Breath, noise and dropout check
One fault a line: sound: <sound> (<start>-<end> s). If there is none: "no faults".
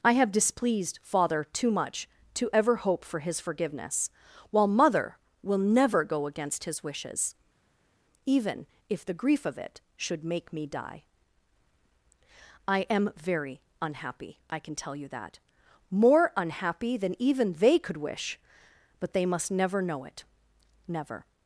no faults